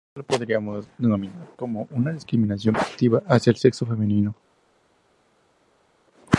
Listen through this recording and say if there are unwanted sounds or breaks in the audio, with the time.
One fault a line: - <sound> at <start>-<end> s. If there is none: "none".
none